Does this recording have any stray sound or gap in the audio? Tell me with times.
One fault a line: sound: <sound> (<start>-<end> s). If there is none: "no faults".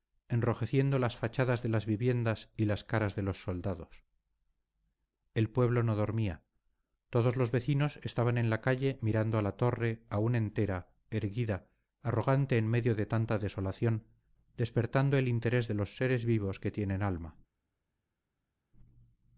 no faults